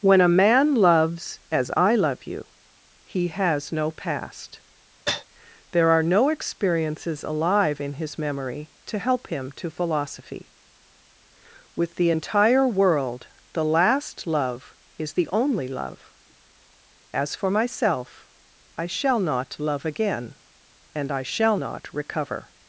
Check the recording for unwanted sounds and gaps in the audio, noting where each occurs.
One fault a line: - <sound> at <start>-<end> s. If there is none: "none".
- cough at 5.1-5.3 s